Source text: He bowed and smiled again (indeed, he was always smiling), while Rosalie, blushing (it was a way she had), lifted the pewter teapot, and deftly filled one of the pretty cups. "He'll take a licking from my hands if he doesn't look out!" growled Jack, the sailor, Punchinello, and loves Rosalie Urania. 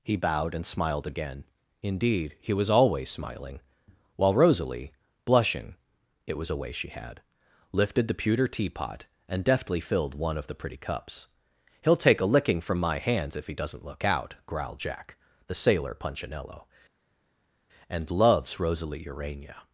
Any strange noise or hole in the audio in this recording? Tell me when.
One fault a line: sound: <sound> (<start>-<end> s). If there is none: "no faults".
no faults